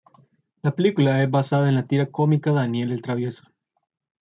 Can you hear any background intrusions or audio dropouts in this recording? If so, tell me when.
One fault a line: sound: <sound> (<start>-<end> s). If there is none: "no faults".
no faults